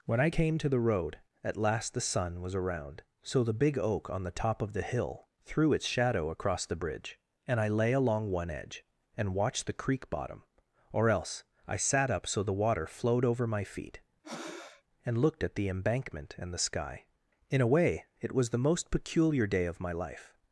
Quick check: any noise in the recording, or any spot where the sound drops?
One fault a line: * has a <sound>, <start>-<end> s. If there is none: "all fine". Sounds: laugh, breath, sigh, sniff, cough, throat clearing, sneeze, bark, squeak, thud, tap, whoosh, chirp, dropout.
* has a breath, 14.2-14.8 s